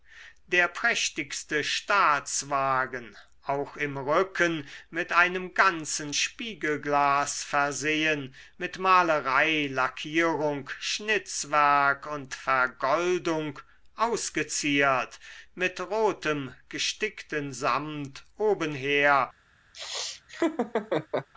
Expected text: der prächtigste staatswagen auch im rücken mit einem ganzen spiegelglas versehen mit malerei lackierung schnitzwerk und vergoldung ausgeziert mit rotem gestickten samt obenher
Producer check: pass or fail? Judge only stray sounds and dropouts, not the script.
fail